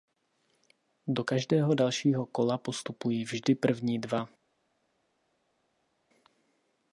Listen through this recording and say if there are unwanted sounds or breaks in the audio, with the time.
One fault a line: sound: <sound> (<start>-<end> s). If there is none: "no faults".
no faults